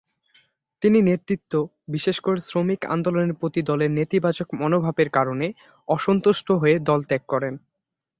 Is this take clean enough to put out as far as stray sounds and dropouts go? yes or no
yes